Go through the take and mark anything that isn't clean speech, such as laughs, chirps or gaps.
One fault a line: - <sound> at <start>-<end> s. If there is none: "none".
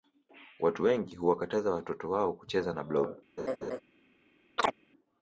- laugh at 3.4-3.8 s
- chirp at 4.6-4.7 s